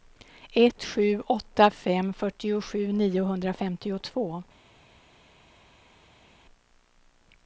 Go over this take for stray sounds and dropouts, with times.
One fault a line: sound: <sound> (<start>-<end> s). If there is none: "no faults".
no faults